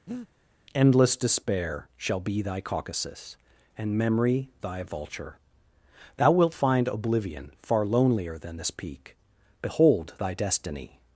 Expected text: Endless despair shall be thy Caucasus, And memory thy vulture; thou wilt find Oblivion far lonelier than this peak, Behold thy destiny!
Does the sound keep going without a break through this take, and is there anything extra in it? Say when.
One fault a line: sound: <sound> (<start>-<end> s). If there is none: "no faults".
sound: breath (0.1-0.3 s)